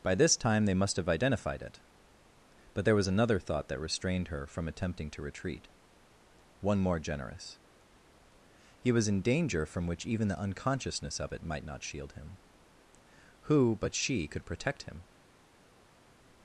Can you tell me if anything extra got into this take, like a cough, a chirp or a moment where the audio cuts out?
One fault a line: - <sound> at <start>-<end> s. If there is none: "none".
none